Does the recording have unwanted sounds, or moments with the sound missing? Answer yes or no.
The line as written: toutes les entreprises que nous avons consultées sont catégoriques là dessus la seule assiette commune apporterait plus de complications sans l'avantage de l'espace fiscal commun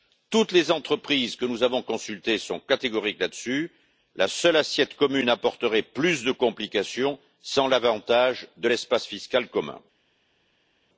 no